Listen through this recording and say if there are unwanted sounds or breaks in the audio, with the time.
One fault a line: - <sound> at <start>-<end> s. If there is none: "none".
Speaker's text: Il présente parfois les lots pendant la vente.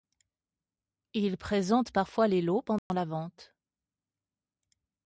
- dropout at 2.8-2.9 s